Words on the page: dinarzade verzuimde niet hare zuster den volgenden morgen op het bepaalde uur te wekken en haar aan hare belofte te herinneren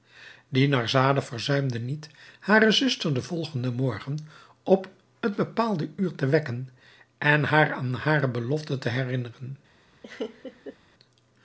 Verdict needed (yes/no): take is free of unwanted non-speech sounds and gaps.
no